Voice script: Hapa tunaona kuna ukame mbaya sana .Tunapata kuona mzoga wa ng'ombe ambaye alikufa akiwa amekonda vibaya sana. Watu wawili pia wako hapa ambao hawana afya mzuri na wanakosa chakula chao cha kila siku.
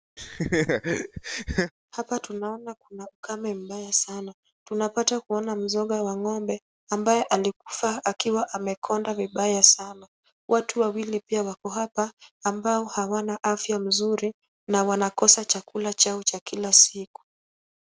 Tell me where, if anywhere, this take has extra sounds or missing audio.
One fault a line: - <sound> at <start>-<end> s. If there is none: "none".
- laugh at 0.2-1.7 s